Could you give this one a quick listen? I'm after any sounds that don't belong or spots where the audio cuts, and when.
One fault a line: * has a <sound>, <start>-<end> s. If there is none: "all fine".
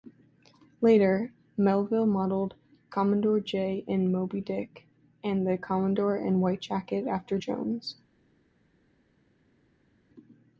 all fine